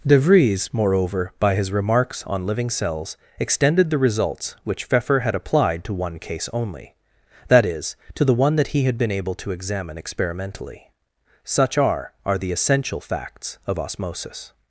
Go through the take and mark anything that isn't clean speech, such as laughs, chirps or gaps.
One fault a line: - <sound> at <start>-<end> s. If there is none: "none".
none